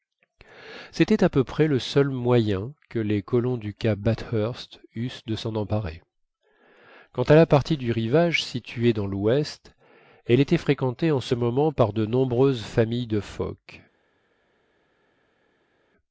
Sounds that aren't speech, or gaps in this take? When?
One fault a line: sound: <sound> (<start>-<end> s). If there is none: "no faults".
no faults